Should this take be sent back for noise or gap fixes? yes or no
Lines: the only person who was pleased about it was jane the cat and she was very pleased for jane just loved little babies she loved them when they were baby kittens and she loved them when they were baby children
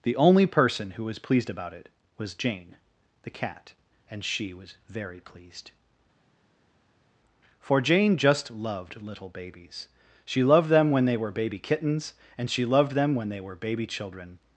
no